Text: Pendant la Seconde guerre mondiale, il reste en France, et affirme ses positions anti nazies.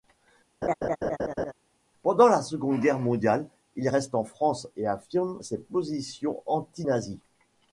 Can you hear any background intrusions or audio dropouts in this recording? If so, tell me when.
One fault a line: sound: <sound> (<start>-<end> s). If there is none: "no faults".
sound: laugh (0.6-1.5 s)